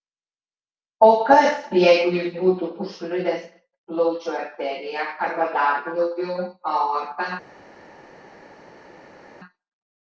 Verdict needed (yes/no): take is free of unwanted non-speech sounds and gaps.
yes